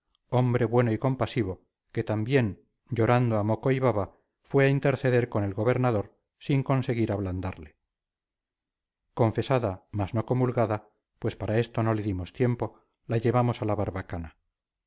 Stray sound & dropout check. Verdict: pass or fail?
pass